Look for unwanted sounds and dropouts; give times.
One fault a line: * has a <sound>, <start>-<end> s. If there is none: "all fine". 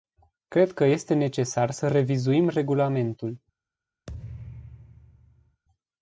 * has a thud, 4.1-5.6 s